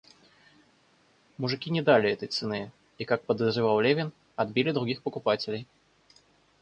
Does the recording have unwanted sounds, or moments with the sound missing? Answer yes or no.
no